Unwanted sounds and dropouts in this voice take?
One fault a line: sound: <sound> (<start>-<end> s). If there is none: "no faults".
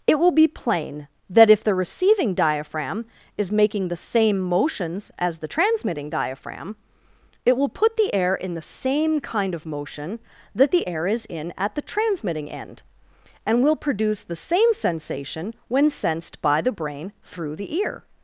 no faults